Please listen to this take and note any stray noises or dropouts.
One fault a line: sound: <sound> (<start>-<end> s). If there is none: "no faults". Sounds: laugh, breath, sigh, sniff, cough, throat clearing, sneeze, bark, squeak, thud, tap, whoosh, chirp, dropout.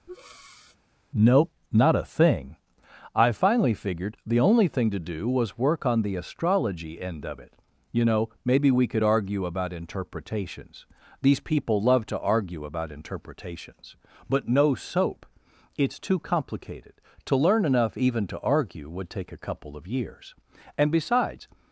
sound: breath (0.1-0.8 s)